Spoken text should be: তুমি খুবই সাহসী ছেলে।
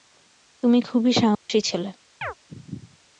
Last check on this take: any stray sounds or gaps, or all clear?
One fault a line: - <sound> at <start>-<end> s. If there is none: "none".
- dropout at 1.3-1.5 s
- chirp at 2.2-2.3 s